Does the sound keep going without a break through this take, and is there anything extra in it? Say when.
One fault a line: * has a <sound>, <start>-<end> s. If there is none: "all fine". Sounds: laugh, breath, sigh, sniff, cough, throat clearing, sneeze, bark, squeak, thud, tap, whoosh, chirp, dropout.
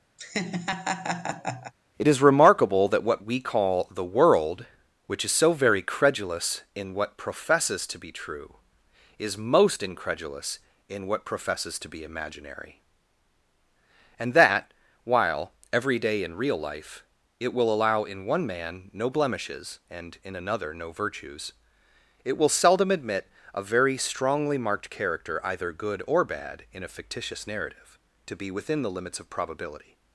* has a laugh, 0.2-1.7 s